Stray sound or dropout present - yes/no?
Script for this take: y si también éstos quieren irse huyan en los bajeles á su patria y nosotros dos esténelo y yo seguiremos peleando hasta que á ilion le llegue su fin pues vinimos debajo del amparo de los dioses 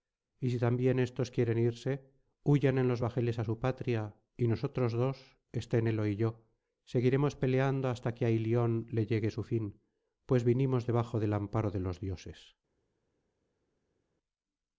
no